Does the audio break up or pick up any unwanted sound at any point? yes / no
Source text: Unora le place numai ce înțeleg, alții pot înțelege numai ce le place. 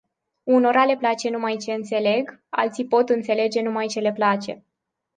no